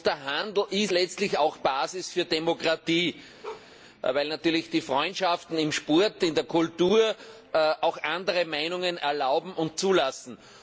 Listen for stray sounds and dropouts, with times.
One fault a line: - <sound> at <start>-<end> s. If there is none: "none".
- bark at 3.4-3.7 s